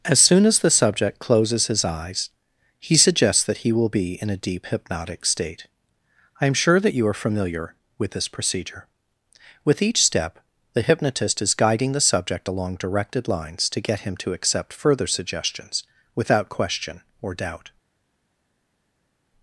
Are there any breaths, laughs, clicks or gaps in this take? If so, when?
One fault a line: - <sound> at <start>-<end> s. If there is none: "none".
none